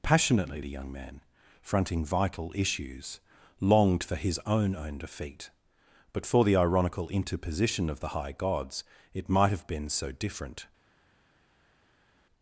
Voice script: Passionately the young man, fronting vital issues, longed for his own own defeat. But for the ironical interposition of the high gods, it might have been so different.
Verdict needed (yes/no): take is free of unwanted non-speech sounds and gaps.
yes